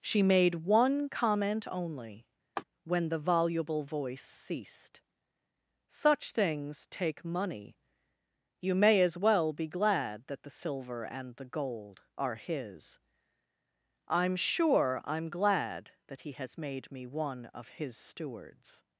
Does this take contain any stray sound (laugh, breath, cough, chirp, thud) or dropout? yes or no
yes